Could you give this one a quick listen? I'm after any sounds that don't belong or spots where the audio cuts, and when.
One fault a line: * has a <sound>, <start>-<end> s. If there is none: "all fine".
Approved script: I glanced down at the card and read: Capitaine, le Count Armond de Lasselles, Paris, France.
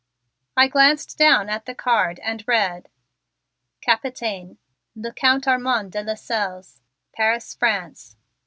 all fine